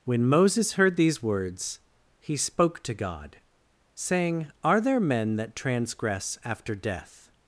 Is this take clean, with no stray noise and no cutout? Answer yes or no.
yes